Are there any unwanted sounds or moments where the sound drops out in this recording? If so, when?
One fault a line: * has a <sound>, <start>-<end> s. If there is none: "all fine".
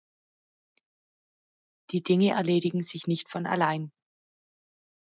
all fine